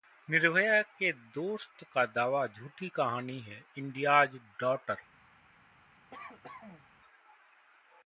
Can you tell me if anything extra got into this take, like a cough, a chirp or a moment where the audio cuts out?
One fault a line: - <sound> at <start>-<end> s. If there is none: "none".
- cough at 6.1-6.9 s